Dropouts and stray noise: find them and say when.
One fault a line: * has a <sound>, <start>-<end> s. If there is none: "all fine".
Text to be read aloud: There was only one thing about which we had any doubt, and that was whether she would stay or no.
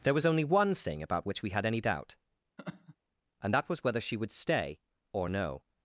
* has a laugh, 2.6-3.0 s